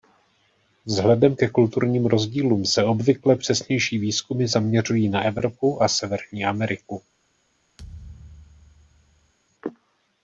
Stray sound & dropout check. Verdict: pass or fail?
fail